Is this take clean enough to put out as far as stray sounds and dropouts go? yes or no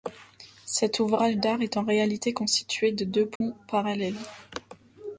no